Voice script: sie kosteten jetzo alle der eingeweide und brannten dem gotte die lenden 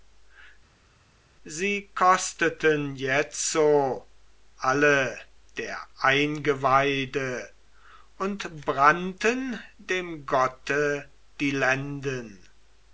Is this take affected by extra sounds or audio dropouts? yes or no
no